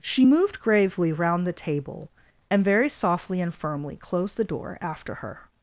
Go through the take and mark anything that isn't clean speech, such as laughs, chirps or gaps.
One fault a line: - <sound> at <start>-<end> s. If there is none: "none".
none